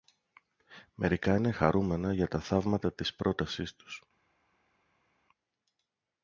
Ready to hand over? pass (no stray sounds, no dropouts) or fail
pass